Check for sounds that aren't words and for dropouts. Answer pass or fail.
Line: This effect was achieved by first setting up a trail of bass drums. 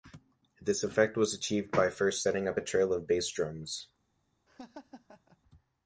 fail